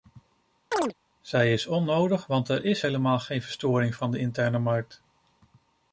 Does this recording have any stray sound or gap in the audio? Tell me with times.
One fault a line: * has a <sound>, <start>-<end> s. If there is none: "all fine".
* has a chirp, 0.7-0.9 s